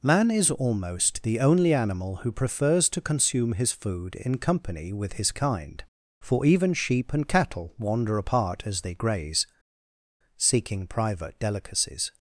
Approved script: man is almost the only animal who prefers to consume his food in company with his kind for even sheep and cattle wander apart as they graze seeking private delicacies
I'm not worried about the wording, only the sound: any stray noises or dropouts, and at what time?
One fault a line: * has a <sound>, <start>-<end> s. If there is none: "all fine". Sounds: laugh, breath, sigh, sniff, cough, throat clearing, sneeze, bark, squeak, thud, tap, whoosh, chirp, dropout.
all fine